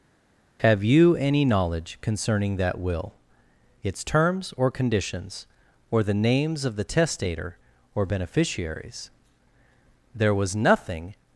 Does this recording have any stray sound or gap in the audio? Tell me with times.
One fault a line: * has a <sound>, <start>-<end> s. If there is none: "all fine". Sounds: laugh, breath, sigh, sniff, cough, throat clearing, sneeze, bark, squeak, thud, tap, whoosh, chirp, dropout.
all fine